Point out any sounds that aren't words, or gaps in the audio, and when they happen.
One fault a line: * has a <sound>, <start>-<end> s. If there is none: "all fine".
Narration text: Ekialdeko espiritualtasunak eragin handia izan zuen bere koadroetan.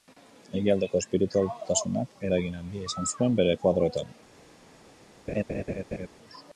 * has a laugh, 5.3-6.1 s